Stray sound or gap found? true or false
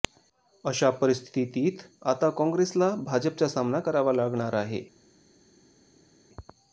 false